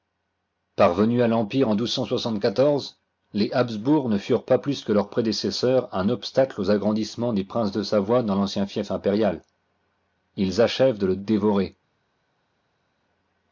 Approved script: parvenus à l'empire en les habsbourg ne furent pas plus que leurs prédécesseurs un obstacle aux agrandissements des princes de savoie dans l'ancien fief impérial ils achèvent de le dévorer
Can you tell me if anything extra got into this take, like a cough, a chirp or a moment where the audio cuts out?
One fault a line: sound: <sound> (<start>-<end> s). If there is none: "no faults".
no faults